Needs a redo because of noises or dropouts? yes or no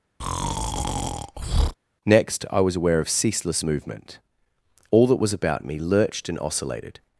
yes